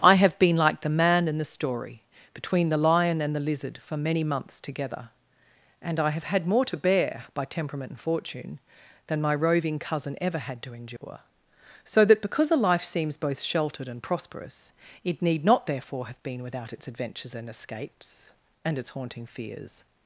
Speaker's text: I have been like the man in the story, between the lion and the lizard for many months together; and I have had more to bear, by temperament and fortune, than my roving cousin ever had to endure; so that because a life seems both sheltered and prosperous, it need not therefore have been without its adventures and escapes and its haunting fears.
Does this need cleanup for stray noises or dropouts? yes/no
yes